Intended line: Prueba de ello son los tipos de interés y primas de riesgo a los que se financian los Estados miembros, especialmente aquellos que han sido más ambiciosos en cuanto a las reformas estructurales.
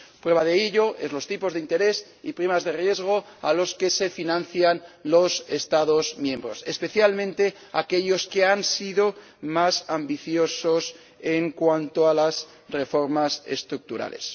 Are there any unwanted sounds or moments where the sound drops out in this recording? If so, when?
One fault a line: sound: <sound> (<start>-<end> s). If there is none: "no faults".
no faults